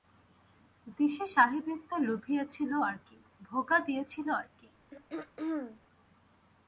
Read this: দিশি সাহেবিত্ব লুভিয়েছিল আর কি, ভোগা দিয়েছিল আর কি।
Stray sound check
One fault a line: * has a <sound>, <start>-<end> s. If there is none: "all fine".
* has a throat clearing, 4.9-5.8 s